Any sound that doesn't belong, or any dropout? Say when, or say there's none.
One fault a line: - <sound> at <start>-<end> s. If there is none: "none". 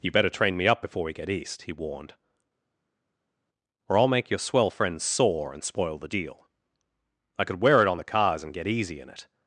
none